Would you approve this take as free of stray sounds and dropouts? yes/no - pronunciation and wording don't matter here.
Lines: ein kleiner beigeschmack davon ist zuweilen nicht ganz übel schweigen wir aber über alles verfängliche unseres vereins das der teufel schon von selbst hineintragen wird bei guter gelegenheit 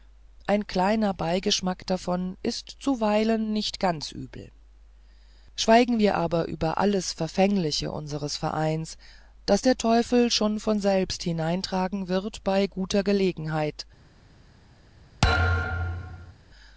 no